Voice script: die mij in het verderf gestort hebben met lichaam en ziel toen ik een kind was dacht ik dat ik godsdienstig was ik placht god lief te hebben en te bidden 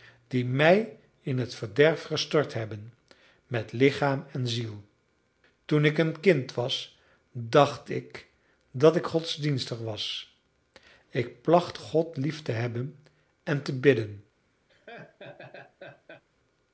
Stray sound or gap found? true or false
true